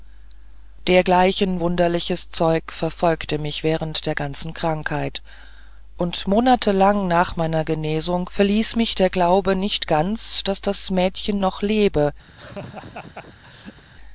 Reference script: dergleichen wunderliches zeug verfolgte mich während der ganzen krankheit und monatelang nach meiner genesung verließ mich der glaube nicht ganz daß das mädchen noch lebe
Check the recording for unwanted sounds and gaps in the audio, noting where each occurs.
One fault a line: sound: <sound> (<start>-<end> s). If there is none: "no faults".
sound: laugh (12.3-13.8 s)